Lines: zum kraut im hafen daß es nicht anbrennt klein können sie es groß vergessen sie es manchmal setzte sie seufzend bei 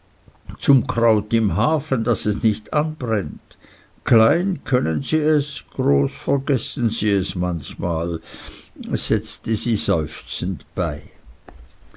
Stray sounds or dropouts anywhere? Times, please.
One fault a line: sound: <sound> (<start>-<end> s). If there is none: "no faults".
no faults